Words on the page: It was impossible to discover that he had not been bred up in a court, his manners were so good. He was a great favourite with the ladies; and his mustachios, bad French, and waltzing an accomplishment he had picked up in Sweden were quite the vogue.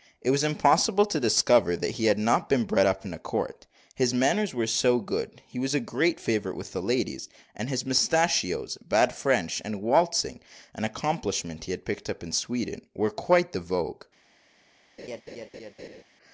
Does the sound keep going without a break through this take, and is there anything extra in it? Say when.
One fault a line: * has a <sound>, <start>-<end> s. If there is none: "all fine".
* has a laugh, 15.0-16.0 s